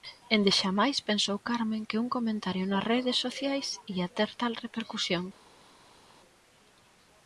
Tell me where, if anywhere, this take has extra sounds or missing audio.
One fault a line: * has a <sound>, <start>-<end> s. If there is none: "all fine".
all fine